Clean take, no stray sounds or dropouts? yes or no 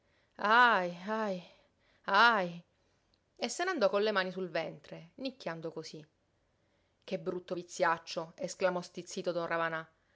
yes